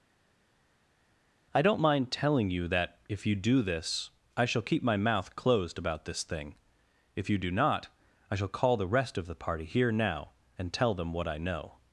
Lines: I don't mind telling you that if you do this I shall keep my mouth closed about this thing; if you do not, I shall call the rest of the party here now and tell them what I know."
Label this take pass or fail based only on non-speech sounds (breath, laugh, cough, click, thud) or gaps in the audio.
pass